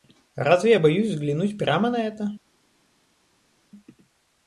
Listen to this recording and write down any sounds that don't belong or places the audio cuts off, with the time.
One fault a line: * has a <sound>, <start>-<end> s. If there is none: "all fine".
all fine